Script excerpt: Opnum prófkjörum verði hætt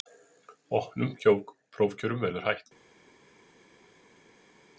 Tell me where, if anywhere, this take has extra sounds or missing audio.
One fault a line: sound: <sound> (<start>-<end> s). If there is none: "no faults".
no faults